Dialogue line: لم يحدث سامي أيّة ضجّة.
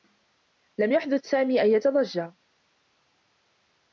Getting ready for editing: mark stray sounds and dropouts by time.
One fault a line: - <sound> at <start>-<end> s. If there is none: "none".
none